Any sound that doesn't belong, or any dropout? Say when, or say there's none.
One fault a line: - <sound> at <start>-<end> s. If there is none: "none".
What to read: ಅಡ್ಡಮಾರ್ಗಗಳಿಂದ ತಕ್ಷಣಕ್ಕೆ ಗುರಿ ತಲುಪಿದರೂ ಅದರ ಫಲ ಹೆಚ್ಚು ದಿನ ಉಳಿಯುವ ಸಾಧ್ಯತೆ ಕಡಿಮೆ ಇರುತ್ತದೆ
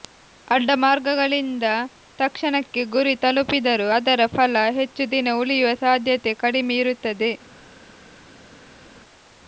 none